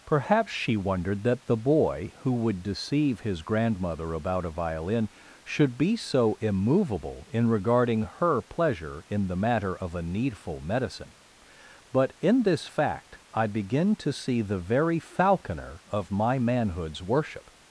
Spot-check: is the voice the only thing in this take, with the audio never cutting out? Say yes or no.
yes